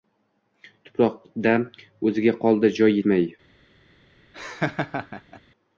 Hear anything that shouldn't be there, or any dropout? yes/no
yes